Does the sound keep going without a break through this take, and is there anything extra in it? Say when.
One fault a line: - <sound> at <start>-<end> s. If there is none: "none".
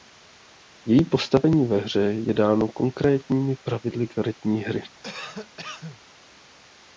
- cough at 5.0-6.0 s